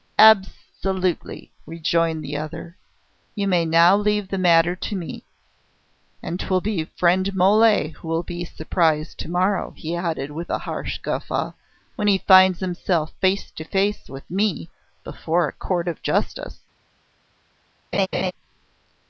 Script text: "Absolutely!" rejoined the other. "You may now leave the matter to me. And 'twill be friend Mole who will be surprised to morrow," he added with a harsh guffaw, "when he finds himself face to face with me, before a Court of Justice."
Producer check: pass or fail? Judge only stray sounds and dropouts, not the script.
fail